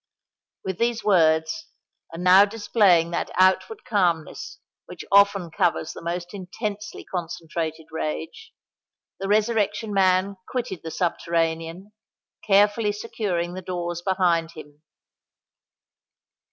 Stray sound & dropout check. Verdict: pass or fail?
pass